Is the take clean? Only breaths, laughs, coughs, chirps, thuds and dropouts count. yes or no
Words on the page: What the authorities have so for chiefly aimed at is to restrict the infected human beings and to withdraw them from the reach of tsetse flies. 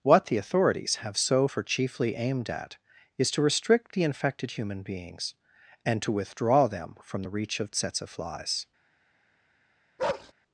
no